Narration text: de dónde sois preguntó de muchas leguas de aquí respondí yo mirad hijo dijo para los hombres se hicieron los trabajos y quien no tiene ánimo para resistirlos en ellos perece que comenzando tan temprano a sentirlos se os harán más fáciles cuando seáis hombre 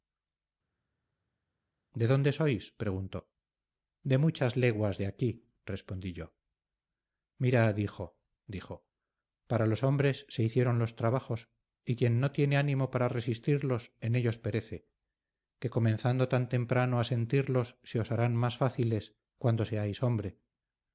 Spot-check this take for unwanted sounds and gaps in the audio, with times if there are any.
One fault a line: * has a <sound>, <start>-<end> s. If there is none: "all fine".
all fine